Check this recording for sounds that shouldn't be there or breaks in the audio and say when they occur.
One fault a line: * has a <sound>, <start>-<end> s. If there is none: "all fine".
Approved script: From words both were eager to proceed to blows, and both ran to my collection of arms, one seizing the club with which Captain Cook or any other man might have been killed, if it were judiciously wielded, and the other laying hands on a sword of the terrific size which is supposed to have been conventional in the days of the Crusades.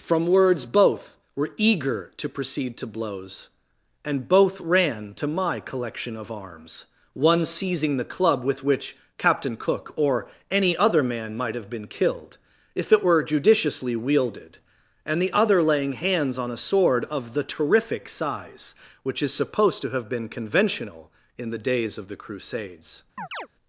* has a chirp, 23.2-23.5 s